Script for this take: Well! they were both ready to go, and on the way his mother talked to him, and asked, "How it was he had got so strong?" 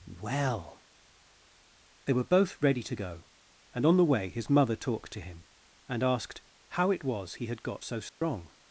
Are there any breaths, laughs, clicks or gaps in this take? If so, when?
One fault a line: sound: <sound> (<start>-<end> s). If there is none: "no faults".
sound: dropout (8.1-8.2 s)